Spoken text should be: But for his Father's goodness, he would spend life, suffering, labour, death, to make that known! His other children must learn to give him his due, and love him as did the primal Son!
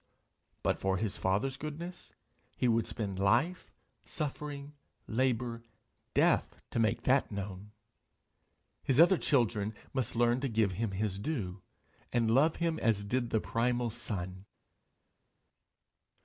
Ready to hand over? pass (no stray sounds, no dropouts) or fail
pass